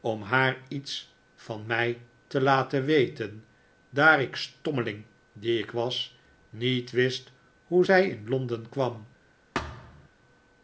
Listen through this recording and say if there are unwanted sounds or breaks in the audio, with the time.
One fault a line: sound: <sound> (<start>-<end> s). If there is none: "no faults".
sound: thud (9.5-10.1 s)